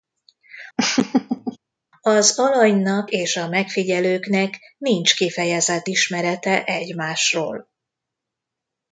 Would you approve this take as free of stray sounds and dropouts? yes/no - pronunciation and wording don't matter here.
no